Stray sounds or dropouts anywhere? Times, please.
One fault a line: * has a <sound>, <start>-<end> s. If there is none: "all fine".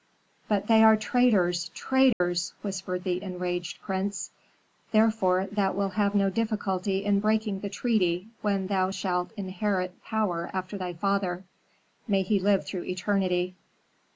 * has a dropout, 2.1-2.2 s